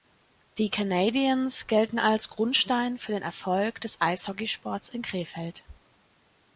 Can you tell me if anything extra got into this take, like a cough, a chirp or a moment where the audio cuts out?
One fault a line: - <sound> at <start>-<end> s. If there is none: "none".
none